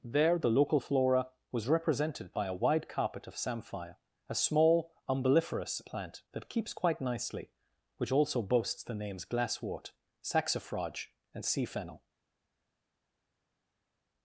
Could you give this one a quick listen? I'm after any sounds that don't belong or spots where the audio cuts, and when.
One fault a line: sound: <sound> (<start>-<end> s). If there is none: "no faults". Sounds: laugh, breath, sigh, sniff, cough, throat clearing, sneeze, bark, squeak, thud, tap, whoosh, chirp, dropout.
no faults